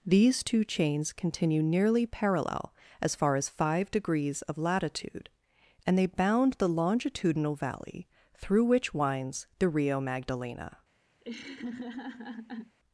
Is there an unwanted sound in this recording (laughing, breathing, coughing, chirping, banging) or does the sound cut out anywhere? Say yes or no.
yes